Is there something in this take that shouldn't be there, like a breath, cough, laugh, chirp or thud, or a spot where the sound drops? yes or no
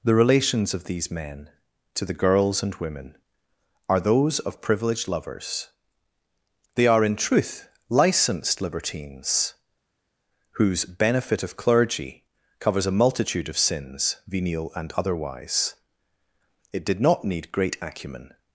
no